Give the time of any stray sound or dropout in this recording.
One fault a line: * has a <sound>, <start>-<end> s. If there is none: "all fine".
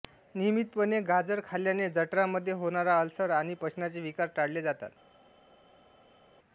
all fine